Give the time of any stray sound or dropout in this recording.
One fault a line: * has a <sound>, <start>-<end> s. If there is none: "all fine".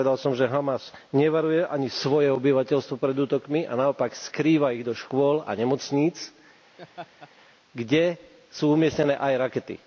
* has a laugh, 6.8-7.3 s